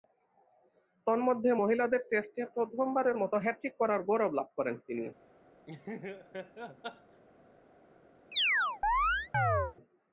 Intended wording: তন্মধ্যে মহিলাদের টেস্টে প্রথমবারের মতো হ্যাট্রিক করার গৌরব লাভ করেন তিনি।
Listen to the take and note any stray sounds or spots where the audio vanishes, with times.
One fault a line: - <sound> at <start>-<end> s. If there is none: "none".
- laugh at 5.7-7.2 s
- chirp at 8.3-9.7 s